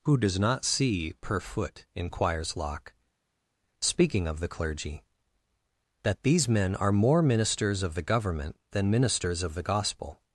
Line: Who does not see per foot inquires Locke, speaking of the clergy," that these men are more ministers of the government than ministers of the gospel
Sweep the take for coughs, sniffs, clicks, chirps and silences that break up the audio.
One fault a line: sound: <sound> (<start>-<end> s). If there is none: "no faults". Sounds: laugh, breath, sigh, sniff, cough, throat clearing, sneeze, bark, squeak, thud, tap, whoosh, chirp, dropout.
no faults